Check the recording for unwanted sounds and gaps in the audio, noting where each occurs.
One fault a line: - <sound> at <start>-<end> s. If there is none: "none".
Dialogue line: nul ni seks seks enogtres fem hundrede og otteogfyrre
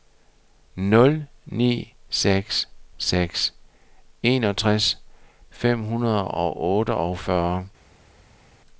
none